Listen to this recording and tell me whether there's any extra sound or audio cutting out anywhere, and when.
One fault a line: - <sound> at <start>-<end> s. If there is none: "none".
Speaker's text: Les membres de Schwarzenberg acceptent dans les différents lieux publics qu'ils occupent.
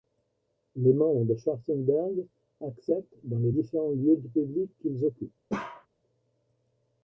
- bark at 5.5-5.9 s